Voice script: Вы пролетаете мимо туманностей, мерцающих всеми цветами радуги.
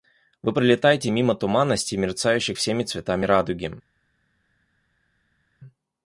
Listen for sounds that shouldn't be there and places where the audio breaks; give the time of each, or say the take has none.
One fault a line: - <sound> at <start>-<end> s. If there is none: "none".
none